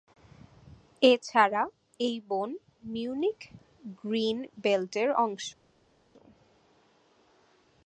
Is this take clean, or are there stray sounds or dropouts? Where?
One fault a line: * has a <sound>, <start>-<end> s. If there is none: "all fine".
all fine